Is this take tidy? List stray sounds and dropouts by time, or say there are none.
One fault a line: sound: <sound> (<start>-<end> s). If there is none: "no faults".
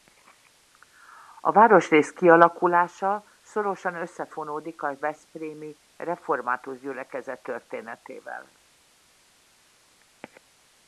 no faults